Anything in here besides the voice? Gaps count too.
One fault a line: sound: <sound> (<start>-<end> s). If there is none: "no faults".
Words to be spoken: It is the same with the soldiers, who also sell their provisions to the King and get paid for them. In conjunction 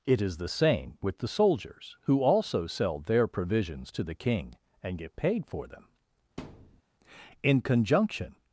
sound: thud (6.4-6.8 s)